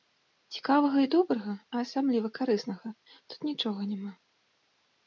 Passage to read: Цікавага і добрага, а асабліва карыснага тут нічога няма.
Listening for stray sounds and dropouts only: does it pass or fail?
pass